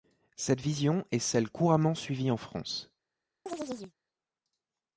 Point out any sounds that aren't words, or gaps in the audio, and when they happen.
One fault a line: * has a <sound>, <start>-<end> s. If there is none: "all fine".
* has a chirp, 3.5-3.9 s